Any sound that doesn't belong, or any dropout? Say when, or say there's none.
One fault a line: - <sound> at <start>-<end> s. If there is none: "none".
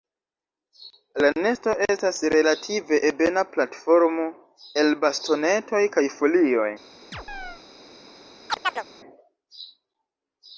- chirp at 7.1-7.6 s
- chirp at 8.5-8.8 s